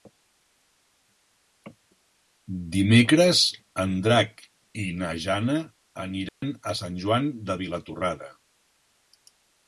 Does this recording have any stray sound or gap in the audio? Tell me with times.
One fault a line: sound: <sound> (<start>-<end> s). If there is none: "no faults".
sound: dropout (6.3-6.4 s)